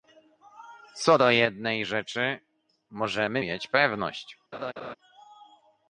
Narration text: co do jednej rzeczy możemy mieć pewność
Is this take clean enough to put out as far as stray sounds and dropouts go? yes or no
no